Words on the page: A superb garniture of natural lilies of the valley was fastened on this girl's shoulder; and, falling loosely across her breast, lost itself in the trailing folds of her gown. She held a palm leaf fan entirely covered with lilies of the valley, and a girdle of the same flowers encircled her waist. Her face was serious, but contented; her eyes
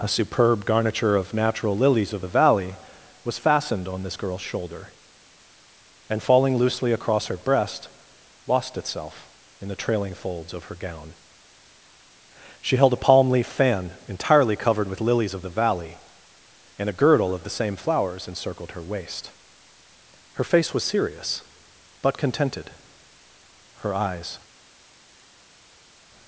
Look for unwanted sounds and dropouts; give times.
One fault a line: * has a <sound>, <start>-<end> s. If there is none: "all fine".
all fine